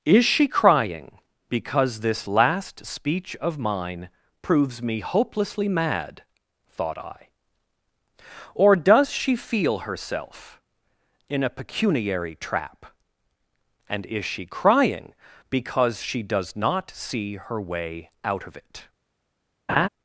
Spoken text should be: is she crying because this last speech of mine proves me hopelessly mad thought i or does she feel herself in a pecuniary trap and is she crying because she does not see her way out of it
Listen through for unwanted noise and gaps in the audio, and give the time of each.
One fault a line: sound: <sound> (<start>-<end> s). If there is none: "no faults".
sound: laugh (19.7-19.9 s)